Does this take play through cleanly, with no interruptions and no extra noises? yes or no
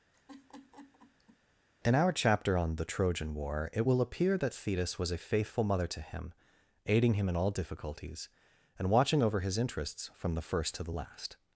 no